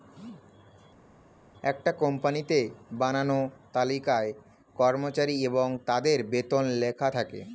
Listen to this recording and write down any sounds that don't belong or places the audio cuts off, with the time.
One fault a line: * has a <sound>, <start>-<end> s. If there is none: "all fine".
all fine